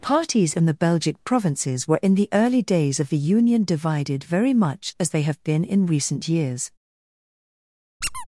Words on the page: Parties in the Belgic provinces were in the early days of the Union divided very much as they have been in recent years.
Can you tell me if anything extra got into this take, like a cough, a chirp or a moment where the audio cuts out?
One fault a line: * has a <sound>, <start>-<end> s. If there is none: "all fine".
* has a squeak, 8.0-8.3 s